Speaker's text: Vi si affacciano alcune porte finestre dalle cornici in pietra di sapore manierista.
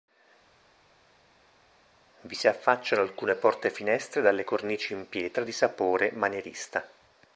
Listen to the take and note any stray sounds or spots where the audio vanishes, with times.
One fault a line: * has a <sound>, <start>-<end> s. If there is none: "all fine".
all fine